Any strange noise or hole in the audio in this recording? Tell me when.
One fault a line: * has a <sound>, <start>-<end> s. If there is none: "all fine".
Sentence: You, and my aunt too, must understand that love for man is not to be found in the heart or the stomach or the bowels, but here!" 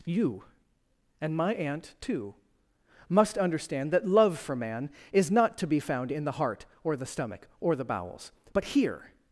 all fine